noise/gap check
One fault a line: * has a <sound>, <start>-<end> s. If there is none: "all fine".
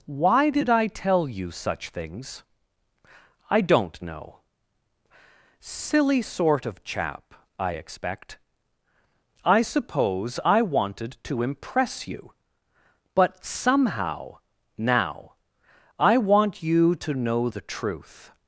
all fine